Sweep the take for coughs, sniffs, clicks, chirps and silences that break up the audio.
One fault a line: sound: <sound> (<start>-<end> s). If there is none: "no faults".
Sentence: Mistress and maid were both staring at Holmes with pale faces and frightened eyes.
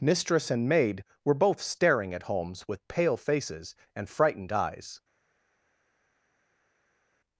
no faults